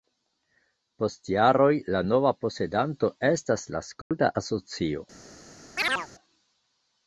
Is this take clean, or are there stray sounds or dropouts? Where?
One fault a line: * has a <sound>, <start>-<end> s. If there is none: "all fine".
* has a dropout, 4.0-4.1 s
* has a chirp, 5.8-6.1 s